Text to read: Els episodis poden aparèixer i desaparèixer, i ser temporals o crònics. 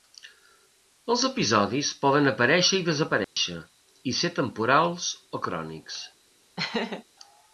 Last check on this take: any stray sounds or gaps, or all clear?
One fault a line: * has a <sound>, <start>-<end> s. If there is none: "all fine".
* has a dropout, 3.2-3.4 s
* has a laugh, 6.6-7.0 s